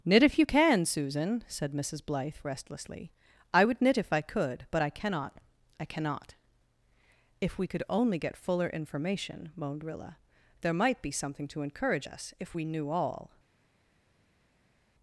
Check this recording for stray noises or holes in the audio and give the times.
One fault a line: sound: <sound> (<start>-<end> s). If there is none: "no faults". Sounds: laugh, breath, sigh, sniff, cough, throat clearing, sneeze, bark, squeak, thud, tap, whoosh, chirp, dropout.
no faults